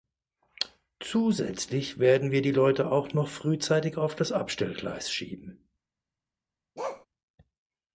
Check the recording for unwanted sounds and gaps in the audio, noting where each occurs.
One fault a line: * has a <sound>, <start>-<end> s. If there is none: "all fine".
* has a bark, 6.8-7.1 s